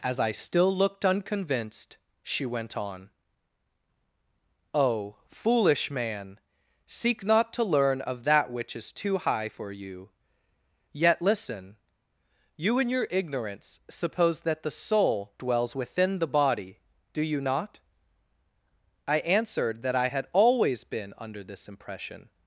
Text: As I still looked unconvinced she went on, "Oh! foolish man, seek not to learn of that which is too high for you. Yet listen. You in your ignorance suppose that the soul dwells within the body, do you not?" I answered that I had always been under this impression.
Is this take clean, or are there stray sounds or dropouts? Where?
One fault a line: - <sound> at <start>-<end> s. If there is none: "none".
none